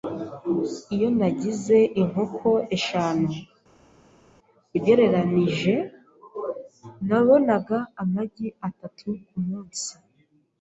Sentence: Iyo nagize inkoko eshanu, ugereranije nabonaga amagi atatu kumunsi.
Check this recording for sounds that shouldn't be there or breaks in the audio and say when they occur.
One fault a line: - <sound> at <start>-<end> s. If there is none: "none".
none